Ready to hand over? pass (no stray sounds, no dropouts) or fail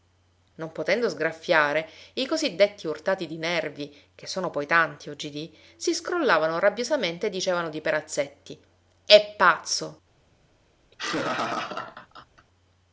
fail